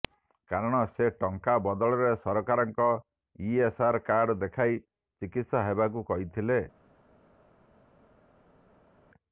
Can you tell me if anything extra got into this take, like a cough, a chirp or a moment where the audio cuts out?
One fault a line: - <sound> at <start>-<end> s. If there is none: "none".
none